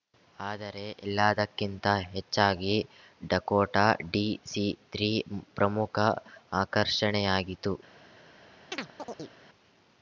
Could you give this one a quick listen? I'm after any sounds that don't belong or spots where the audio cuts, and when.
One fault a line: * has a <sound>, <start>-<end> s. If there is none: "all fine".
* has a chirp, 8.7-9.3 s